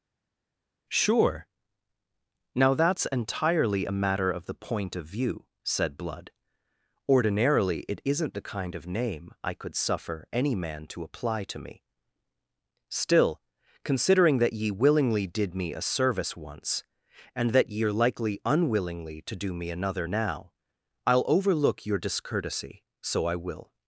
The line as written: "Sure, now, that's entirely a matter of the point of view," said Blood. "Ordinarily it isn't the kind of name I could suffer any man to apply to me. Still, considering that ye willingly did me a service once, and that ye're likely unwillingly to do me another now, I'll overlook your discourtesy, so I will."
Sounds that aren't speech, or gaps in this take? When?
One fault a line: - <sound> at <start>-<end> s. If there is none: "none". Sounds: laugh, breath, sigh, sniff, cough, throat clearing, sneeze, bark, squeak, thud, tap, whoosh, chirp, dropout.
none